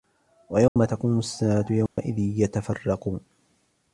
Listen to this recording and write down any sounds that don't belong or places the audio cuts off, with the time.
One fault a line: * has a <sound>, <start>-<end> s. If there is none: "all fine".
* has a dropout, 0.7-0.8 s
* has a dropout, 1.9-2.0 s